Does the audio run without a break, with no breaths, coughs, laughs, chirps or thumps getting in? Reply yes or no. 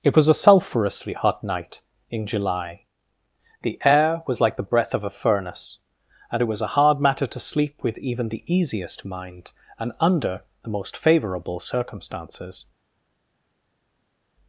yes